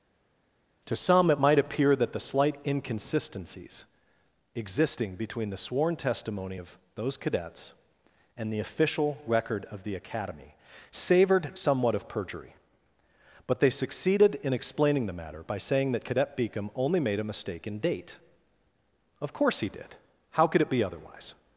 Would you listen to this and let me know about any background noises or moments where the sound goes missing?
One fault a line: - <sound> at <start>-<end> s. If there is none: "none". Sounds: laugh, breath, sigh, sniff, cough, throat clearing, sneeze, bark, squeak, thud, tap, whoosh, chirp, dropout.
none